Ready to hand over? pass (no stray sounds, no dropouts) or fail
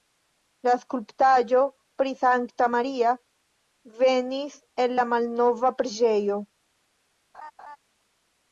fail